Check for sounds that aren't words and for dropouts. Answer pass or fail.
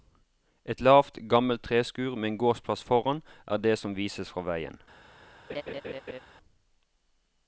fail